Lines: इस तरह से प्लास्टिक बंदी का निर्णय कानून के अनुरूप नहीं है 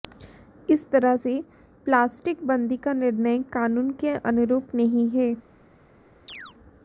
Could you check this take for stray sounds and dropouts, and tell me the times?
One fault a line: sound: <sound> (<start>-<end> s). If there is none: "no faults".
sound: chirp (6.3-6.5 s)